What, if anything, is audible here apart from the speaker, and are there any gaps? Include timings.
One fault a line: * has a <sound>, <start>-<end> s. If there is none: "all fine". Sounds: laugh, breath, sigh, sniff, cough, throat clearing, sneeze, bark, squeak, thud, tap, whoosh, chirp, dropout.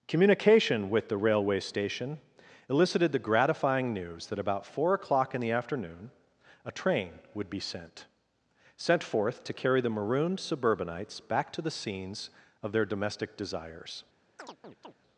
* has a chirp, 14.4-14.9 s